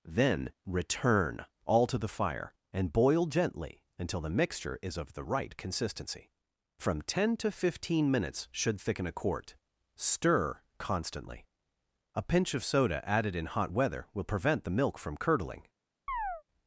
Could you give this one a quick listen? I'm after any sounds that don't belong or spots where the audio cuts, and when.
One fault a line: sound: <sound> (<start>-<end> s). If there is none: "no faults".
sound: chirp (16.1-16.4 s)